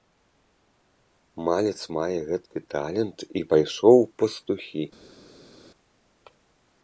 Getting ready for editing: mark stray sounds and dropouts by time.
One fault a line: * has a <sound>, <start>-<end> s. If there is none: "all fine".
all fine